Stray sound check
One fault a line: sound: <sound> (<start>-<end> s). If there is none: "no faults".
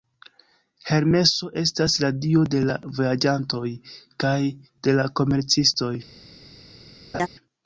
sound: laugh (7.1-7.3 s)